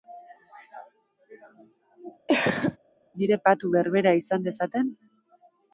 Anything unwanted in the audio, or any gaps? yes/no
yes